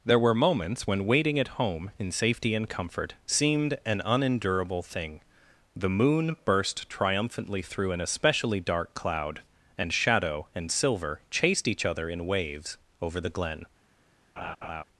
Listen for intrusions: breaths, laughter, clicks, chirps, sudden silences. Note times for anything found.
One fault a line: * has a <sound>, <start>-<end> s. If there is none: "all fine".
* has a laugh, 14.4-14.8 s